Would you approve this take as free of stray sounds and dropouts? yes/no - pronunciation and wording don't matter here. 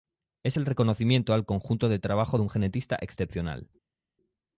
yes